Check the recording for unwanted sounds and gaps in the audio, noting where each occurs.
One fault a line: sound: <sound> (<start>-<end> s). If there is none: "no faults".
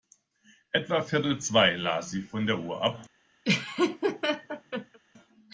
sound: laugh (3.4-5.0 s)